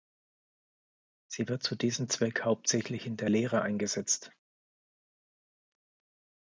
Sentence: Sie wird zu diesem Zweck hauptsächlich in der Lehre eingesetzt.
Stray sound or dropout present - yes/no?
no